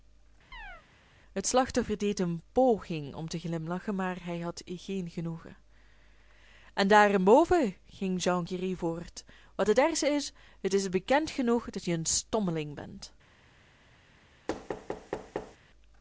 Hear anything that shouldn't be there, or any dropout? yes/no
yes